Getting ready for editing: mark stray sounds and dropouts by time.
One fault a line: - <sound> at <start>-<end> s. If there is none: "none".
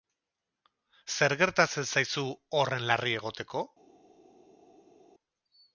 none